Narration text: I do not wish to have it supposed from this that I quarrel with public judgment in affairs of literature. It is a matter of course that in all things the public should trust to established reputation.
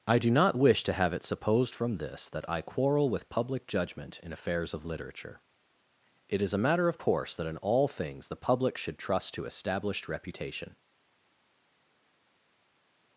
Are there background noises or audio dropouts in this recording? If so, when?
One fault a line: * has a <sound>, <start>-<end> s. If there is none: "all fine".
all fine